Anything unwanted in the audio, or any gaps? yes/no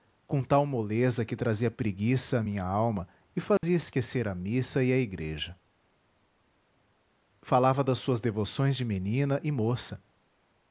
yes